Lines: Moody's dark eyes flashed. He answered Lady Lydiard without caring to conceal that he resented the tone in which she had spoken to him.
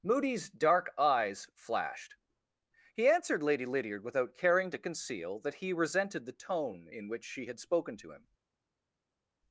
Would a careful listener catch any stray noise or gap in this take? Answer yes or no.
no